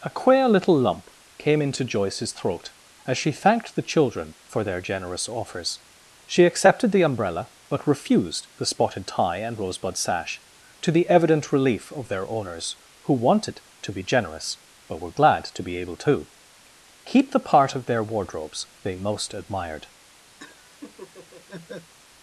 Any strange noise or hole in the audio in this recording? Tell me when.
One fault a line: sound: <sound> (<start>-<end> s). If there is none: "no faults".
sound: laugh (20.4-21.9 s)